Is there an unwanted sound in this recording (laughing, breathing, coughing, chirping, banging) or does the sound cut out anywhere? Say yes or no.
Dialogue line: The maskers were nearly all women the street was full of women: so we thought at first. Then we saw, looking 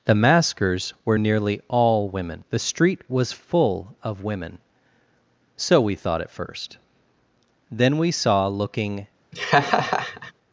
yes